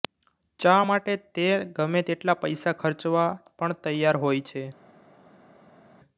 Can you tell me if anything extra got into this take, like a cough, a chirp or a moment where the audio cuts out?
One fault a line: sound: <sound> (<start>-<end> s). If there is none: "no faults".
no faults